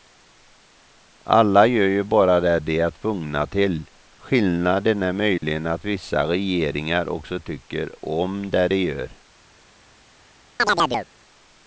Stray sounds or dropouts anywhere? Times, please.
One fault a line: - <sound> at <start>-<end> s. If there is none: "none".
- dropout at 5.4-5.4 s
- chirp at 10.6-11.1 s